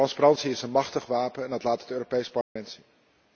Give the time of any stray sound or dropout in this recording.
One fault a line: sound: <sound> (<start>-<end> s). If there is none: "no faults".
sound: dropout (2.4-2.6 s)